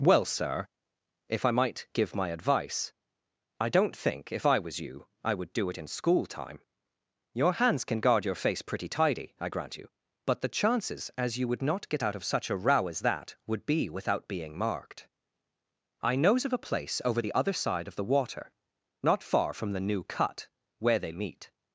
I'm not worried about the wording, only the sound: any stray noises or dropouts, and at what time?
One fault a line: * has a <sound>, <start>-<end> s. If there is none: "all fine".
all fine